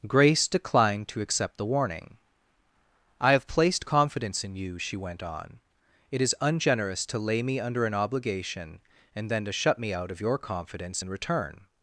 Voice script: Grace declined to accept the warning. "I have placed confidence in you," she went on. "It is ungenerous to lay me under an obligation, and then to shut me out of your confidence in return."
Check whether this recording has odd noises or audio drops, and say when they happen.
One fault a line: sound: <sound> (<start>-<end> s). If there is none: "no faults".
no faults